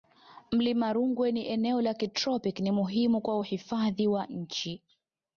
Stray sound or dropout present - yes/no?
no